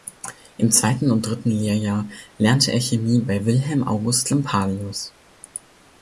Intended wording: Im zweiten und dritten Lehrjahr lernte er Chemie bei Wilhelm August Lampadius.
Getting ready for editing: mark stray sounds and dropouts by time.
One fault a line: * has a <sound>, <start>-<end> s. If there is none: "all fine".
all fine